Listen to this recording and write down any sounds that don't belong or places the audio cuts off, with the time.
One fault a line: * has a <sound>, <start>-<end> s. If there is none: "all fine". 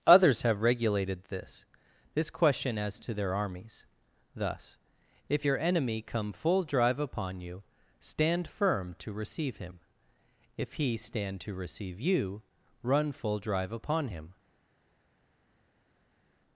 all fine